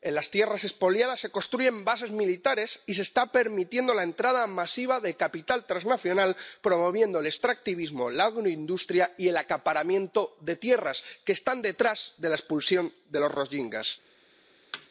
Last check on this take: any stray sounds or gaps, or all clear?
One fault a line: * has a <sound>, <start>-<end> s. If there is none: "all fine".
* has a thud, 14.7-14.9 s